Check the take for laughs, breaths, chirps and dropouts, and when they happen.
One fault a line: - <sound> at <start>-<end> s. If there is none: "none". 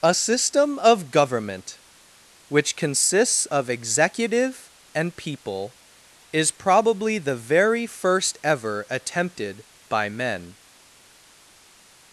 none